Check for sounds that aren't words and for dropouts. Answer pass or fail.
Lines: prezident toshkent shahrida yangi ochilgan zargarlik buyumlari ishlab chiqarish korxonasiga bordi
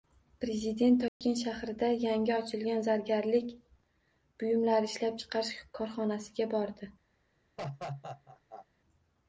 fail